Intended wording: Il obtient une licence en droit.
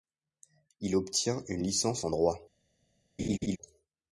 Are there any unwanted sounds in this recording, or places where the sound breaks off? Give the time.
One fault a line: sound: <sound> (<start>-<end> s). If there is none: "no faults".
sound: laugh (3.2-3.6 s)